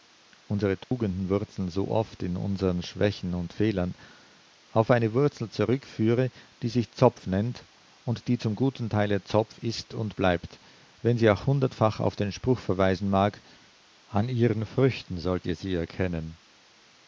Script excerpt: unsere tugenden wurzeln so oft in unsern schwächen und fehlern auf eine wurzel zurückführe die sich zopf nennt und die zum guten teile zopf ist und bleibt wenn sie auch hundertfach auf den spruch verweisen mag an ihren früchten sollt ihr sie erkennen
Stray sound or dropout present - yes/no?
yes